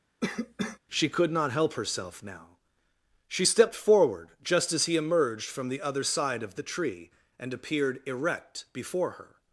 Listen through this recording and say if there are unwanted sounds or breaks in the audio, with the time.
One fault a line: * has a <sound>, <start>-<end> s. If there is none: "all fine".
* has a cough, 0.2-0.8 s